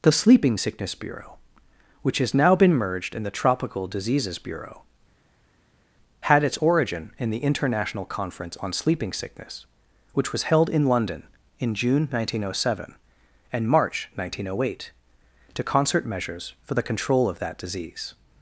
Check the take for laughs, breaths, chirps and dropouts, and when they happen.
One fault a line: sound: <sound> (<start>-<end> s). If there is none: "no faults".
no faults